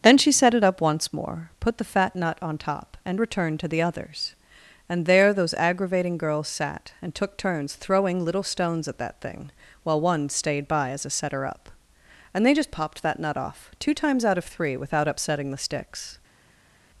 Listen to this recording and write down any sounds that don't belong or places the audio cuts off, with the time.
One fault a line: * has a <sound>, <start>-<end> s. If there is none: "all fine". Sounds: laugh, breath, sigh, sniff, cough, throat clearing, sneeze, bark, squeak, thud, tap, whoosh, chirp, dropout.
all fine